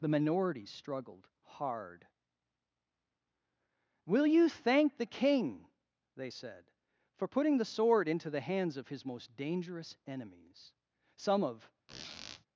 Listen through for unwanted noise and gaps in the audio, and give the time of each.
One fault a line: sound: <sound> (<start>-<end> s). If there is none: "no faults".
sound: squeak (11.9-12.5 s)